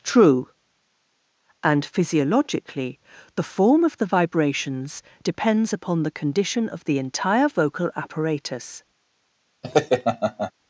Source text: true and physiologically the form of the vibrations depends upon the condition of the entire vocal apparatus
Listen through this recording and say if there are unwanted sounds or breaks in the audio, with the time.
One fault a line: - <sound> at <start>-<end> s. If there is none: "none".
- laugh at 9.6-10.5 s